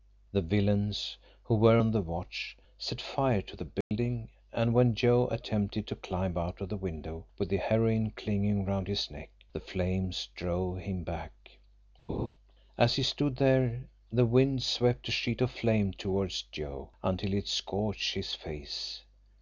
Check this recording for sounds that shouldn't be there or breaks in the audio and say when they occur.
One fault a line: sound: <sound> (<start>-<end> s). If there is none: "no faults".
sound: dropout (3.8-3.9 s)
sound: laugh (12.1-12.3 s)